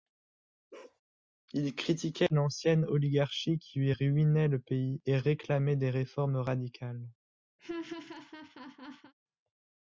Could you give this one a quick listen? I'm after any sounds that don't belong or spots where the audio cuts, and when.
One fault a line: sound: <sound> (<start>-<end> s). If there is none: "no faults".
sound: bark (0.7-1.0 s)
sound: laugh (7.6-9.1 s)